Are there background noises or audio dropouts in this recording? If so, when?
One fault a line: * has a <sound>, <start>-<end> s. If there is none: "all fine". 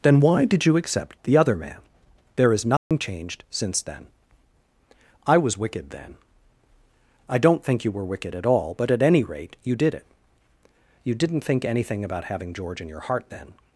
* has a dropout, 2.8-2.9 s